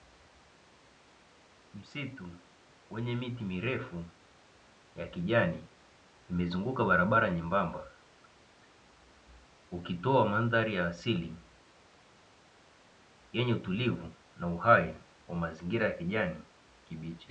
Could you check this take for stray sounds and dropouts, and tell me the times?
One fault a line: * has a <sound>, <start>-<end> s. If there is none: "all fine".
all fine